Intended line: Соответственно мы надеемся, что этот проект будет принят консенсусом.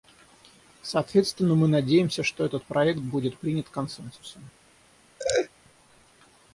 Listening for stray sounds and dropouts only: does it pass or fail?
fail